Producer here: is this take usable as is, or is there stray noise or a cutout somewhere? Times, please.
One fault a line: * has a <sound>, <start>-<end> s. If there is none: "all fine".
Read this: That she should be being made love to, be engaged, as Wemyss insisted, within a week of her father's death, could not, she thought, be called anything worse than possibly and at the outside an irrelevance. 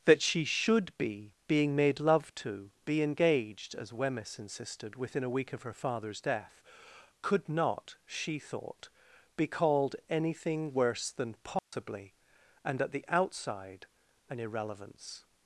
* has a dropout, 11.6-11.7 s